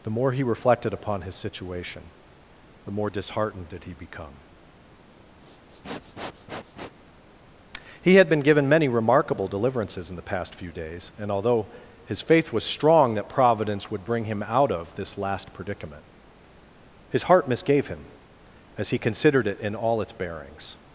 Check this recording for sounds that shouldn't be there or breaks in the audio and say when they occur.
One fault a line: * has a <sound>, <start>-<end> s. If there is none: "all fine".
* has a sniff, 5.4-7.0 s